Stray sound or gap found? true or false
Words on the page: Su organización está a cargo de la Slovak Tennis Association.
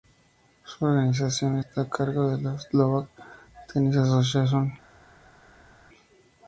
false